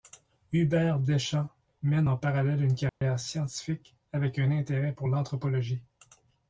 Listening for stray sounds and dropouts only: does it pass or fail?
fail